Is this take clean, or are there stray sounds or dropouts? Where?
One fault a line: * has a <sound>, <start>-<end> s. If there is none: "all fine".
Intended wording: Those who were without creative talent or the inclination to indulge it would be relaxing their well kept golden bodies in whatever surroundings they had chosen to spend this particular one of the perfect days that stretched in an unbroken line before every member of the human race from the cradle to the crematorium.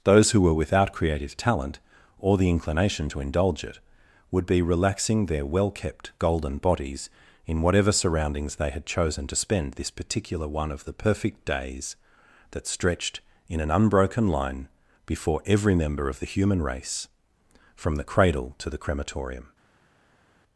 all fine